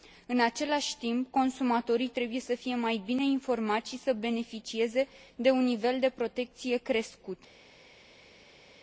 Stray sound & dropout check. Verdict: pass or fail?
pass